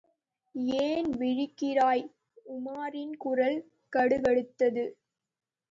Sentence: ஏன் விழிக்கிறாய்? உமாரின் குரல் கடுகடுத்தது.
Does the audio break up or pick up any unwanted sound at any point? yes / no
no